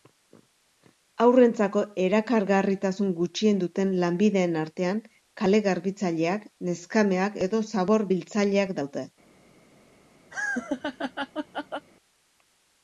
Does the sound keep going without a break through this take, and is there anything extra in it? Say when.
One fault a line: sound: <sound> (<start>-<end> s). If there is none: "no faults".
sound: laugh (10.3-11.9 s)